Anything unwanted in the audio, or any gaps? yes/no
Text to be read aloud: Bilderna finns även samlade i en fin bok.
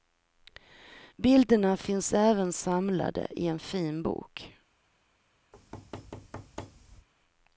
yes